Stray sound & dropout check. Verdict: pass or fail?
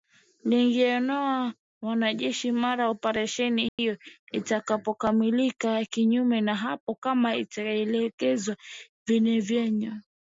fail